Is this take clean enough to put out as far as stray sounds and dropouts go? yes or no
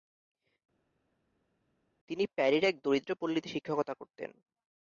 yes